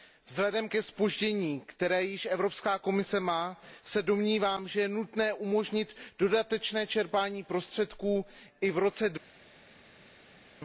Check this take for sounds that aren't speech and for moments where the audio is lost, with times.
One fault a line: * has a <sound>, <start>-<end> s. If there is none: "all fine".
all fine